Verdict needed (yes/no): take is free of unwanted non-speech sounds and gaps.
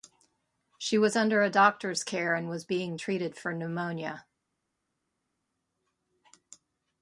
yes